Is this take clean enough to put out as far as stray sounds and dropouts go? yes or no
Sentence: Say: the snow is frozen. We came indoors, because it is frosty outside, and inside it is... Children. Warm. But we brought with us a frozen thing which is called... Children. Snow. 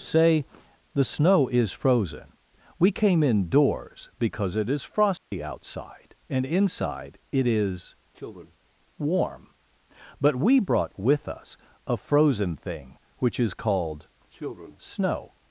no